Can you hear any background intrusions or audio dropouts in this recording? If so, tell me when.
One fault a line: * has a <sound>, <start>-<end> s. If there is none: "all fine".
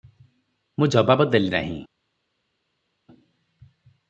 all fine